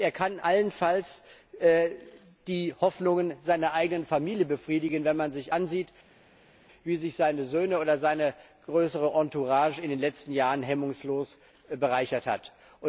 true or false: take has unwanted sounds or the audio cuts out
false